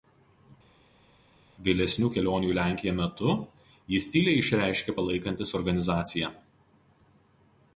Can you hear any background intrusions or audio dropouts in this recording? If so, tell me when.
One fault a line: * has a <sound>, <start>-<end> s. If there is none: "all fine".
all fine